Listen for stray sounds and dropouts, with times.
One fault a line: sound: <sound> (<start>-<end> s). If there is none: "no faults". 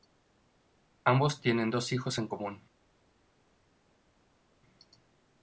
no faults